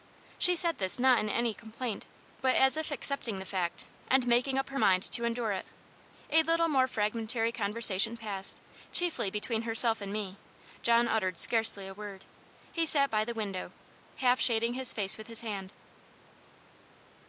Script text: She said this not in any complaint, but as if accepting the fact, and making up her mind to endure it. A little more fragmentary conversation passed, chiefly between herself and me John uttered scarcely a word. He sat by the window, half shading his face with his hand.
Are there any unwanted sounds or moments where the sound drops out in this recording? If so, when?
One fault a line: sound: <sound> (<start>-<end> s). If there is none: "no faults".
no faults